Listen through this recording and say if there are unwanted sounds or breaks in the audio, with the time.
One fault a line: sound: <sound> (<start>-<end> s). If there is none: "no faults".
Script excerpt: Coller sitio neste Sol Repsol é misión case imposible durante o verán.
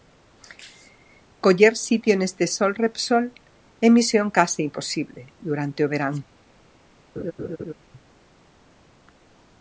sound: laugh (7.2-7.7 s)